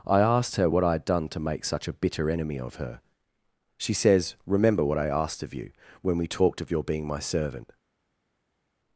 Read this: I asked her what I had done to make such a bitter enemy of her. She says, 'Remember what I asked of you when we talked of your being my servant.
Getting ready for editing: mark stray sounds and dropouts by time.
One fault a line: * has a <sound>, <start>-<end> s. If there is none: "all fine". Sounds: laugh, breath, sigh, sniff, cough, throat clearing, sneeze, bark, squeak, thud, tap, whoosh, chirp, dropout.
all fine